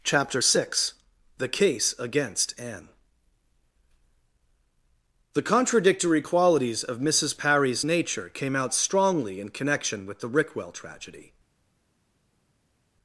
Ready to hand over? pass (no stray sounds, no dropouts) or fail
pass